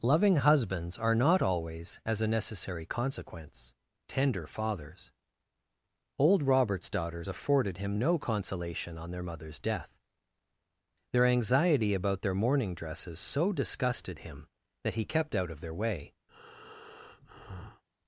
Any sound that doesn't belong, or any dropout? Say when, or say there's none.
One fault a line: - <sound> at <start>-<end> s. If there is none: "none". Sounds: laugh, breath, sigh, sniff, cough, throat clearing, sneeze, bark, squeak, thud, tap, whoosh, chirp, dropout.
- breath at 16.3-17.8 s